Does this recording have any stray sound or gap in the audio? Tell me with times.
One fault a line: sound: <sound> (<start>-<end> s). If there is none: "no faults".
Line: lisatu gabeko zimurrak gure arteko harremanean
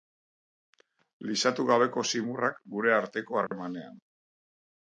sound: dropout (3.5-3.5 s)